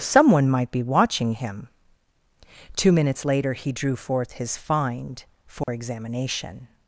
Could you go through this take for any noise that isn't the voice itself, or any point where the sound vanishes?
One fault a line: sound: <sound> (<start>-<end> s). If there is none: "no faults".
sound: dropout (5.6-5.7 s)